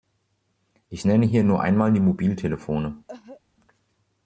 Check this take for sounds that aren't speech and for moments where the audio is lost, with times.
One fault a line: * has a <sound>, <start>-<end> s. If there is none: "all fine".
* has a cough, 3.1-3.4 s